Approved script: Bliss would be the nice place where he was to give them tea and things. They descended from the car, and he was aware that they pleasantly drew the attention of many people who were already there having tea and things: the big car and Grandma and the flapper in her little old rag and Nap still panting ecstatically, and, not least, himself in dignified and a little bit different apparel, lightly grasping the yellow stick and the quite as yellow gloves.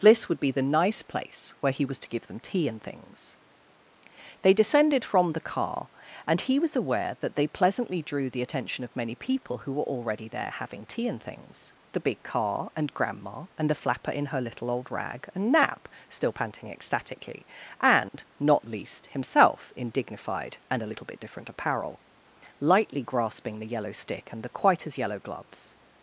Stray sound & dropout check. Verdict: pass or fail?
fail